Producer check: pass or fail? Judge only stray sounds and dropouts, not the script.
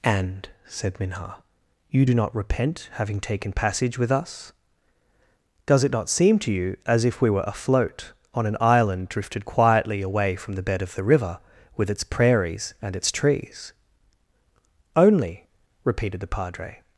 pass